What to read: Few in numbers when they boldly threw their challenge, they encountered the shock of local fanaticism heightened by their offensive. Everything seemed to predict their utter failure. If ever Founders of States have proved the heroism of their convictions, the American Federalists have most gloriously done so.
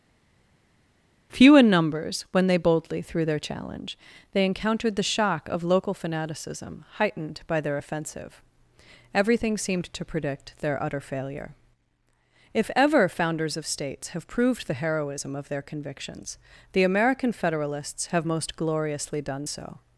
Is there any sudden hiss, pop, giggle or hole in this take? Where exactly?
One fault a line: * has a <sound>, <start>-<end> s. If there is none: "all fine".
all fine